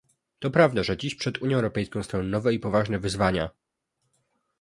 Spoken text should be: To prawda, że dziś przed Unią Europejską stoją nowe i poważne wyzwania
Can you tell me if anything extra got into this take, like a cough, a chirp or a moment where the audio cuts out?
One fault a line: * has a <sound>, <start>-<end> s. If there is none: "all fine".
all fine